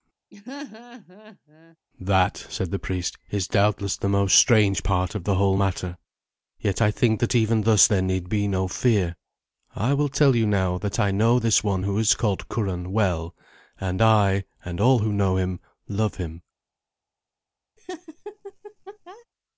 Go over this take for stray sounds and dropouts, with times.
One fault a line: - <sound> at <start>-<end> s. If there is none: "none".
- laugh at 0.3-1.8 s
- laugh at 17.8-19.3 s